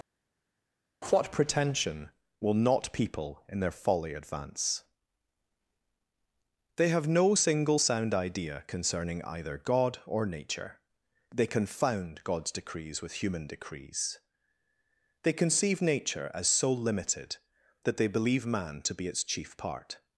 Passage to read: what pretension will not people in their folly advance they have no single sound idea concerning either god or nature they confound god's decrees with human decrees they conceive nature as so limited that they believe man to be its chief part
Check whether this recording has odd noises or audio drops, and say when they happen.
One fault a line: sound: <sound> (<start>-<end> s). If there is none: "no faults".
no faults